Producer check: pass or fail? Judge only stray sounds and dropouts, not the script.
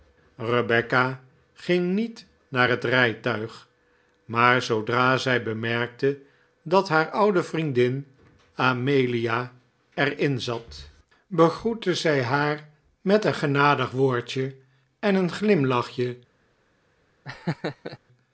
fail